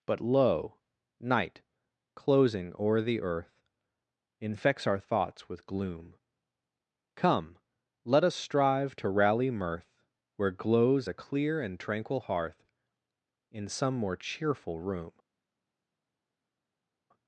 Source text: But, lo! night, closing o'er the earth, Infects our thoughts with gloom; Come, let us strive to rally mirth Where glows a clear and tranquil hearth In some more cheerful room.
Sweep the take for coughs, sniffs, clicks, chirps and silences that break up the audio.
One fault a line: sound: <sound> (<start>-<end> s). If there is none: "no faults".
no faults